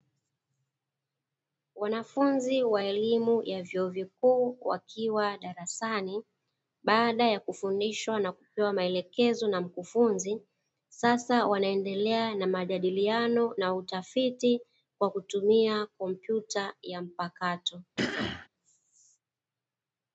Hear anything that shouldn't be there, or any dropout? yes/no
yes